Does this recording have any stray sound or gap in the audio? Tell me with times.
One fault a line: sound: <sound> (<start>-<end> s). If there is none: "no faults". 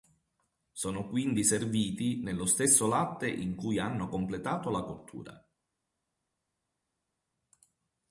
no faults